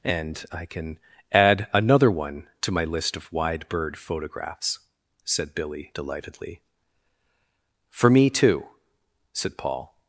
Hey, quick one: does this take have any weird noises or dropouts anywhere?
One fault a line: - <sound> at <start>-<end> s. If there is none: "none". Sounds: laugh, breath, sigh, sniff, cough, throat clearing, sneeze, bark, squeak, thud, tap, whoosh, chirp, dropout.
none